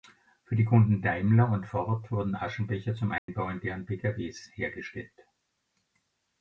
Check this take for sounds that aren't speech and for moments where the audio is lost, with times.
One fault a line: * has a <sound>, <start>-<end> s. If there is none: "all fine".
* has a dropout, 3.2-3.3 s